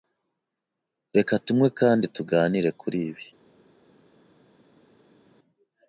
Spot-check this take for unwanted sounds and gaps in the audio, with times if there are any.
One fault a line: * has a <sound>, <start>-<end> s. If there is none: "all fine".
all fine